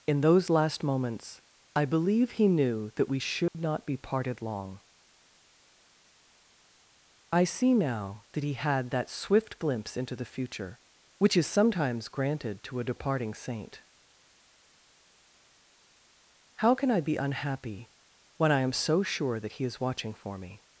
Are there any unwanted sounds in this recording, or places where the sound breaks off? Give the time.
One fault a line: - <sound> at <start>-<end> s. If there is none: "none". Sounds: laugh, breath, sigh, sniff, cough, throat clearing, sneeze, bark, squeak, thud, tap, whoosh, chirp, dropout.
- dropout at 3.5-3.5 s